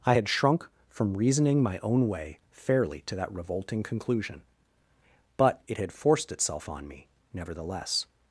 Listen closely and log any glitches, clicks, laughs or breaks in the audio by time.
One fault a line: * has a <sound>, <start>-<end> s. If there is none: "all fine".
all fine